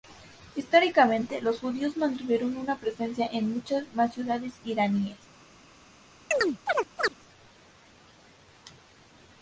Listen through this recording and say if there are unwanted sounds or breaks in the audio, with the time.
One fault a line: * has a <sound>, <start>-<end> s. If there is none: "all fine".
* has a chirp, 6.3-7.1 s